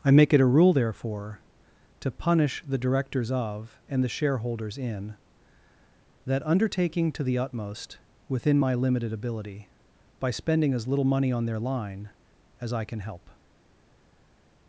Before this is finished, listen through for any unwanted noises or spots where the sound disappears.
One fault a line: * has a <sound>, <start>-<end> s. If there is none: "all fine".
all fine